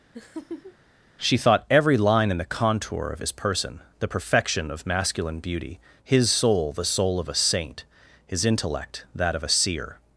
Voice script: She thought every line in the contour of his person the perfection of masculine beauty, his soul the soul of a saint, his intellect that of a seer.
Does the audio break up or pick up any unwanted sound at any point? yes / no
yes